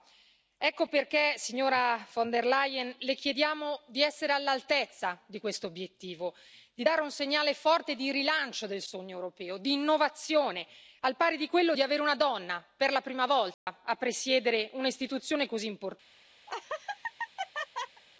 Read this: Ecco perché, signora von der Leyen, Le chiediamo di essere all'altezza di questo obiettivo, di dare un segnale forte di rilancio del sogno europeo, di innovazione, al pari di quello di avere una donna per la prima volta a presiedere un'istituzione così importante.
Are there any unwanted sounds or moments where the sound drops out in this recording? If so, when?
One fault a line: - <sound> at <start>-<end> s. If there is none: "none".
- dropout at 13.5-13.7 s
- laugh at 16.5-18.0 s